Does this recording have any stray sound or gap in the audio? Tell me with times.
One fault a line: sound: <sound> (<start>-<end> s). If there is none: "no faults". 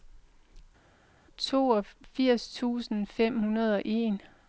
no faults